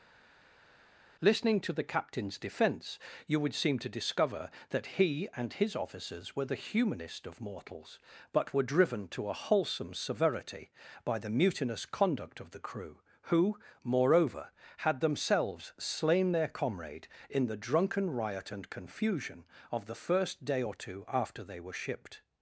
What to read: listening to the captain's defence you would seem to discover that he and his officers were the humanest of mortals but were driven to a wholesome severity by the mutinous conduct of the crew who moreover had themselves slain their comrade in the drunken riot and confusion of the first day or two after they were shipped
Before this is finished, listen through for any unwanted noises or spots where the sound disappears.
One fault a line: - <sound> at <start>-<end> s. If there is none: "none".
none